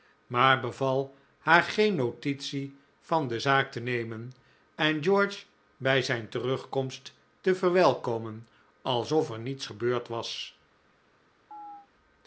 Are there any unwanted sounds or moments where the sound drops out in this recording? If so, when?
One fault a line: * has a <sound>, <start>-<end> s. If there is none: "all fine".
* has a chirp, 11.5-11.9 s